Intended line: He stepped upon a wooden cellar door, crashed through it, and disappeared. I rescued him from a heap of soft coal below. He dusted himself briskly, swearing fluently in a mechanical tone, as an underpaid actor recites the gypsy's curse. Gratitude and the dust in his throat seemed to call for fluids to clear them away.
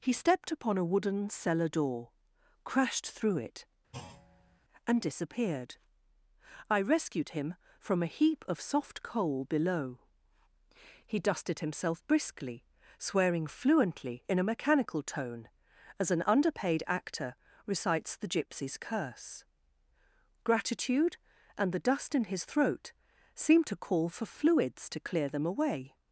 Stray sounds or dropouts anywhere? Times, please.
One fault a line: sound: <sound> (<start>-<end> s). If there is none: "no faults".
sound: thud (3.9-4.6 s)